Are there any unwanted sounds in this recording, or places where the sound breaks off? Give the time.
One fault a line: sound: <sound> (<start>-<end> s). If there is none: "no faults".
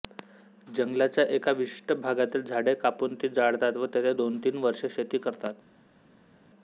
no faults